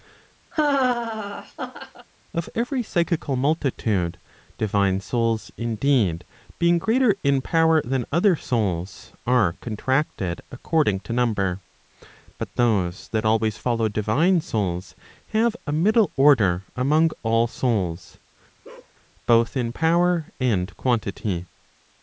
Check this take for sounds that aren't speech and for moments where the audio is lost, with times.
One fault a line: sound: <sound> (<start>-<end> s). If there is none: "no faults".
sound: laugh (0.5-2.1 s)
sound: bark (18.6-18.9 s)